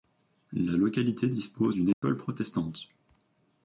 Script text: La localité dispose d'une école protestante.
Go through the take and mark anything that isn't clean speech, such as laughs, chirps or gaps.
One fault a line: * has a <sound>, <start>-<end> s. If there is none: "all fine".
* has a dropout, 1.9-2.0 s